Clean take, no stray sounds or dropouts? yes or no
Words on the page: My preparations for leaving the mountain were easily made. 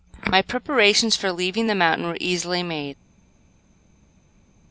yes